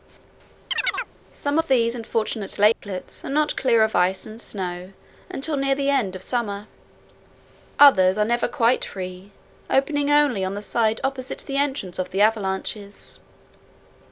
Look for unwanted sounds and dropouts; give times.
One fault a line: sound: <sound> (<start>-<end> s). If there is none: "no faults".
sound: chirp (0.7-1.1 s)
sound: dropout (2.7-2.8 s)